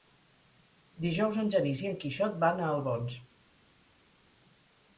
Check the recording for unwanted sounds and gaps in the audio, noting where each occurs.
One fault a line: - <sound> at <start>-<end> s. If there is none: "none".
none